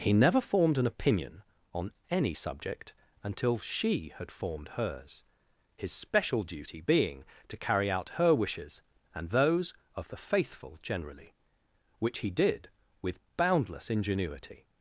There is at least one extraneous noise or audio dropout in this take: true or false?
false